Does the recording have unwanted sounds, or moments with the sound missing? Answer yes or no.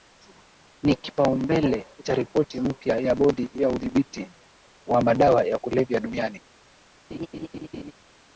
yes